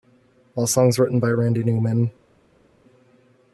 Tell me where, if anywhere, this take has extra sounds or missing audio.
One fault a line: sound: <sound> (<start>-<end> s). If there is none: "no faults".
no faults